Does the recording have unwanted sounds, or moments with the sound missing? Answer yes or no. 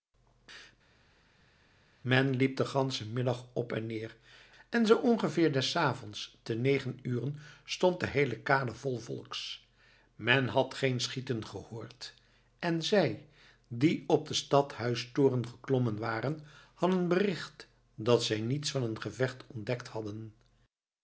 no